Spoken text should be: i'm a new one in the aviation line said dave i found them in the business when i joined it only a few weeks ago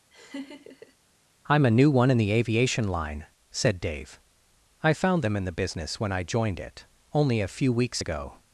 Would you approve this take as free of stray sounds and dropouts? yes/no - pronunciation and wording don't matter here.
no